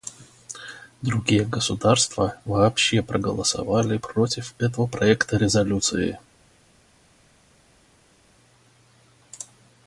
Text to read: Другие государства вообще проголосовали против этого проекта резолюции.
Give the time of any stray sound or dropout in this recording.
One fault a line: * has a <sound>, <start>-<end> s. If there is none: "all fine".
all fine